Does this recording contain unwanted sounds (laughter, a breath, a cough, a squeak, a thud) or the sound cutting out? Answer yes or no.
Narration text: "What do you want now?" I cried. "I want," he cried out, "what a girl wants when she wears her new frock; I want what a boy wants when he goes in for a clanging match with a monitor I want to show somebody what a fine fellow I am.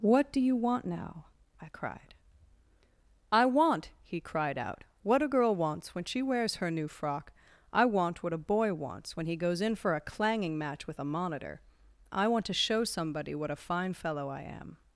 no